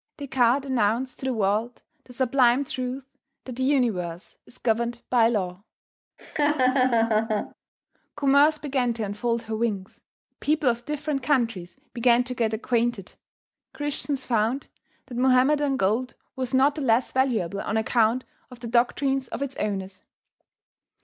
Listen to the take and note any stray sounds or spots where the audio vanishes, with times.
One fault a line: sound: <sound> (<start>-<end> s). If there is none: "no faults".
sound: laugh (6.2-7.5 s)